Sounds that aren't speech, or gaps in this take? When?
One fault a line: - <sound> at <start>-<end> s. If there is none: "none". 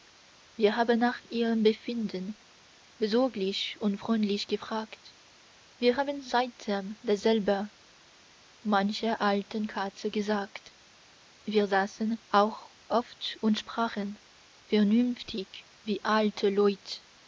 none